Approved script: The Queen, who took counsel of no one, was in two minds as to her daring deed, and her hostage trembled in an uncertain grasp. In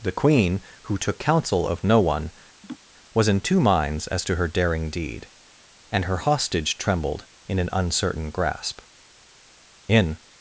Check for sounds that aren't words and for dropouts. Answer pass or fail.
fail